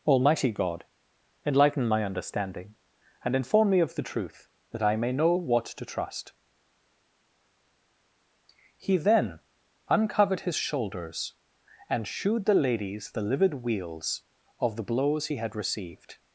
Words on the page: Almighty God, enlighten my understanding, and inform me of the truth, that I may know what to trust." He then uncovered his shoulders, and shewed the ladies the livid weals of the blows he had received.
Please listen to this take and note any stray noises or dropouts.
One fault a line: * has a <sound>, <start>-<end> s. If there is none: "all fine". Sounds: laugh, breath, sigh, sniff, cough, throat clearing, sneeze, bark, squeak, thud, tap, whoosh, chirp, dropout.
all fine